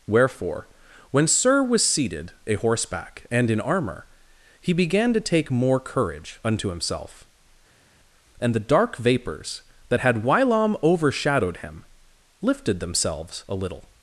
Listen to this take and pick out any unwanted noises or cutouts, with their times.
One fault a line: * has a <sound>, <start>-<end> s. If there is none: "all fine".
all fine